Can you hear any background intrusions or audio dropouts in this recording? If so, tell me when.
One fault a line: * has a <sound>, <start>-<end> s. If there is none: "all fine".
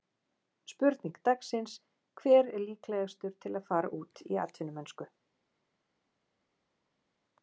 all fine